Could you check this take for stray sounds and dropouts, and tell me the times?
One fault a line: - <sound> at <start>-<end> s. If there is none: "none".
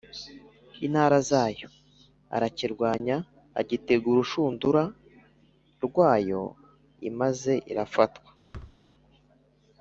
- thud at 8.5-8.8 s